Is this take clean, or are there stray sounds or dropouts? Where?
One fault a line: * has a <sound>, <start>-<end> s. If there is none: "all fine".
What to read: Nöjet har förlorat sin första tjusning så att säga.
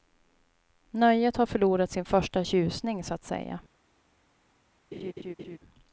* has a laugh, 4.9-5.6 s